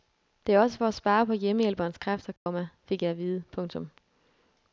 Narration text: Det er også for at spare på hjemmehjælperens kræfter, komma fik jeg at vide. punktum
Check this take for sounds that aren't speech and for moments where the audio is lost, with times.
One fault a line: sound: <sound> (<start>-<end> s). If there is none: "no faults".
sound: dropout (2.4-2.5 s)